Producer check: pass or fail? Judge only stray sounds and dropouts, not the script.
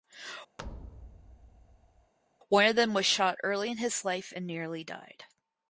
fail